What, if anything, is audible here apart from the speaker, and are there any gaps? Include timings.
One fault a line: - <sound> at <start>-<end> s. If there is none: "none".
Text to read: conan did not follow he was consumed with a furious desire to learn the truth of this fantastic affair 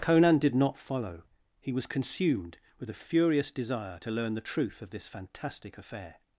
none